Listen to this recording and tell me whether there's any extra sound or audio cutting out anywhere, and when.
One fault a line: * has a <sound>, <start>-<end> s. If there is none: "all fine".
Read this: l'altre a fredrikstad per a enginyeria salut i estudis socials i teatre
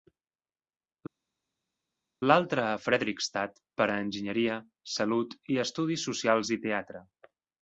all fine